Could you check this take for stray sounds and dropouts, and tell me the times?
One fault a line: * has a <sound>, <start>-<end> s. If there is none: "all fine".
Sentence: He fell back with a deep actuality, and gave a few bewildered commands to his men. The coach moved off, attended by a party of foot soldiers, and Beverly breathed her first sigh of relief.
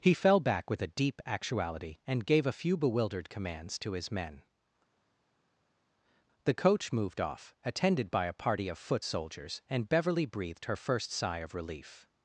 all fine